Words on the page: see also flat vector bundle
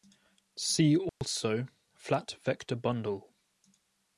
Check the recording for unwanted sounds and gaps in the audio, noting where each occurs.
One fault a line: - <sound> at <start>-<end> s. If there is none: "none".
- dropout at 1.1-1.2 s